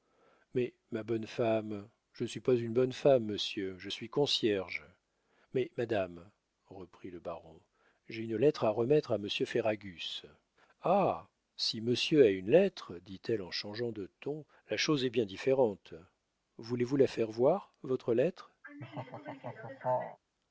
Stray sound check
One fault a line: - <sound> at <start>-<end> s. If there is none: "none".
- laugh at 18.6-20.2 s